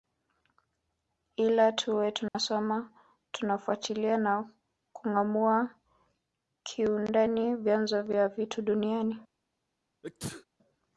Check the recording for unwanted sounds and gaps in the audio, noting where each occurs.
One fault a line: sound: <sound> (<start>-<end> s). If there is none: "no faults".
sound: dropout (2.3-2.3 s)
sound: sneeze (10.0-10.5 s)